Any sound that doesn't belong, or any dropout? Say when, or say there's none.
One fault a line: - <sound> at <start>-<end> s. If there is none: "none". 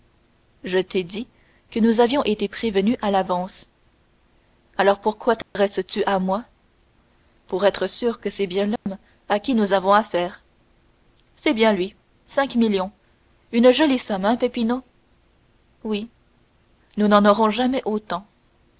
- dropout at 5.4-5.6 s
- dropout at 8.8-8.9 s